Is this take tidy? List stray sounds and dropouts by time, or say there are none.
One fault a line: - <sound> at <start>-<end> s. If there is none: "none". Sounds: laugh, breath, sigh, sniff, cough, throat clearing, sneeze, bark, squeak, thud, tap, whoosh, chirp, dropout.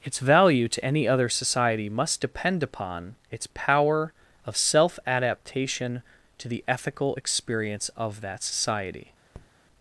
- tap at 9.3-9.5 s